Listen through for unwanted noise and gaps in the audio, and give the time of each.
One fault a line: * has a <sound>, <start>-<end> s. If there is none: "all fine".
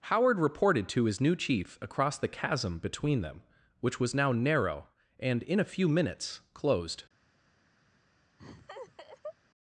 * has a laugh, 8.4-9.3 s